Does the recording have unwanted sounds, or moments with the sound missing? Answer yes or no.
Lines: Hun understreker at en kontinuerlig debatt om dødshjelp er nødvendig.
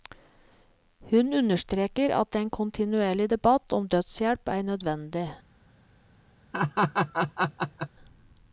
yes